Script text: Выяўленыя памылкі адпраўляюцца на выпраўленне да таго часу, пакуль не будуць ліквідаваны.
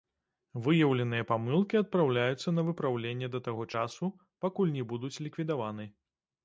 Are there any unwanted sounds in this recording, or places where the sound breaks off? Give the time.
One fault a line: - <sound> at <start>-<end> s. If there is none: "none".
none